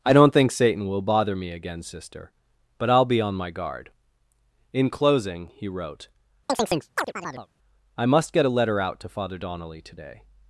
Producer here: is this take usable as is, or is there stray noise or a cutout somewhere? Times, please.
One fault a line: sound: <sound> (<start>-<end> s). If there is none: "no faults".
sound: chirp (6.5-7.5 s)